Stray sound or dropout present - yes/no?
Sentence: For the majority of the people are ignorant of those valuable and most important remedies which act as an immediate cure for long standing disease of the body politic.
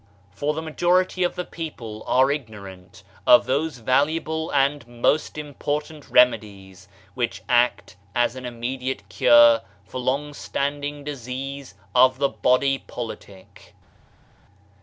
no